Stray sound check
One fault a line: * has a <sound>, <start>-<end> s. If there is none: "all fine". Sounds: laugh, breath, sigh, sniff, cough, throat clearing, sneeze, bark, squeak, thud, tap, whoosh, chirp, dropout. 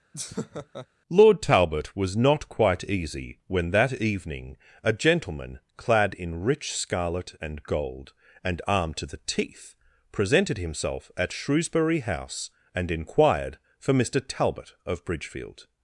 * has a laugh, 0.1-0.9 s